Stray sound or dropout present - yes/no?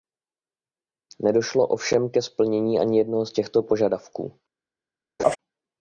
yes